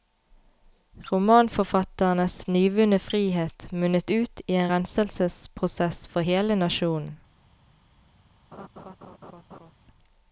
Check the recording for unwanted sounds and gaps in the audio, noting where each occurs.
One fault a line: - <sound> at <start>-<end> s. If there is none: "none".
- laugh at 8.5-9.7 s